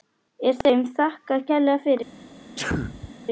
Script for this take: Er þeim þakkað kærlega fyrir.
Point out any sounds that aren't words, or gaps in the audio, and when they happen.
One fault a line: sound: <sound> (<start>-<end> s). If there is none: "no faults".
sound: sneeze (2.6-3.1 s)